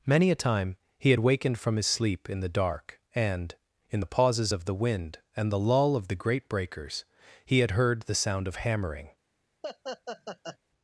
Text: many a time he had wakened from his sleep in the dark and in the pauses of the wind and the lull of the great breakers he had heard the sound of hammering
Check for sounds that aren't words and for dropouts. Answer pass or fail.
fail